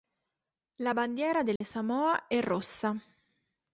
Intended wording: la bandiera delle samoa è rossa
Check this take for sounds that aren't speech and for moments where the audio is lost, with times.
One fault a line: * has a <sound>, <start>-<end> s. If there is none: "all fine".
* has a dropout, 1.6-1.6 s